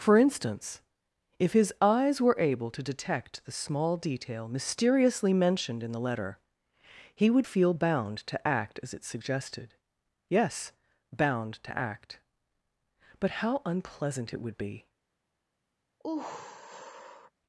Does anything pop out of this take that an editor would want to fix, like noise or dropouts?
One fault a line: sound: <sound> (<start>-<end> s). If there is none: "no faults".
sound: sigh (16.0-17.3 s)